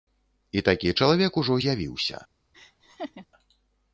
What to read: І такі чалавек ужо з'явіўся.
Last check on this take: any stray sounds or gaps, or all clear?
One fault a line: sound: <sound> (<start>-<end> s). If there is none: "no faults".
sound: laugh (2.5-3.3 s)